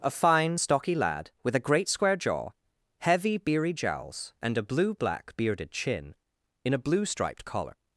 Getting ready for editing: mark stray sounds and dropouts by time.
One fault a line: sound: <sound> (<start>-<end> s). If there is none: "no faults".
no faults